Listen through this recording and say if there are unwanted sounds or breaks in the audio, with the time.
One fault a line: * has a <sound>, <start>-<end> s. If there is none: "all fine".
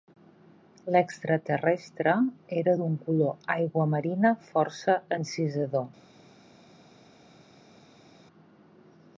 all fine